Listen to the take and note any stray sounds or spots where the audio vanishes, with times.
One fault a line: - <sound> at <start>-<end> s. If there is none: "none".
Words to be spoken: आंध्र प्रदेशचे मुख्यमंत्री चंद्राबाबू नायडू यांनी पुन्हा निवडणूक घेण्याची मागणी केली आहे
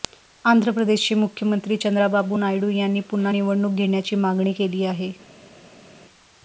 none